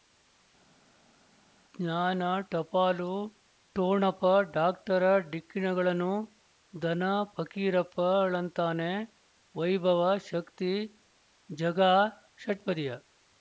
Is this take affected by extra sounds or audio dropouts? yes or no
no